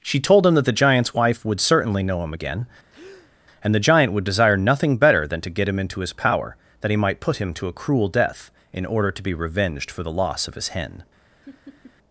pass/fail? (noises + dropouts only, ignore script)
fail